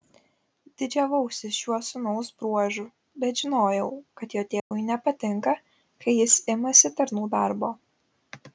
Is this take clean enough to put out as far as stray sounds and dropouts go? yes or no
no